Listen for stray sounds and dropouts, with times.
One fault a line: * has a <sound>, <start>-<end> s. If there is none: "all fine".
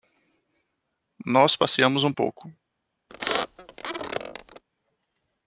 * has a squeak, 3.1-4.6 s